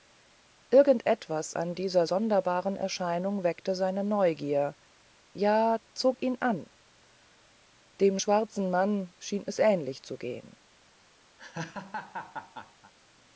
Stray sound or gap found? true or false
true